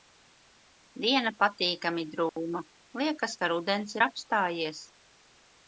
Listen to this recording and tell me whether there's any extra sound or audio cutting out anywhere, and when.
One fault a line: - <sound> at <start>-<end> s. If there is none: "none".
- dropout at 2.3-2.4 s